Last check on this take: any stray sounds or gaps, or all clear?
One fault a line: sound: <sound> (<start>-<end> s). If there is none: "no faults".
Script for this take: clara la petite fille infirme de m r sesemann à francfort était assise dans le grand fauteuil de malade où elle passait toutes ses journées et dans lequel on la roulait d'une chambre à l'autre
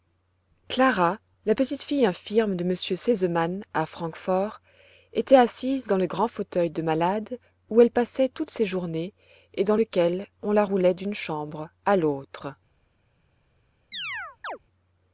sound: chirp (13.9-14.6 s)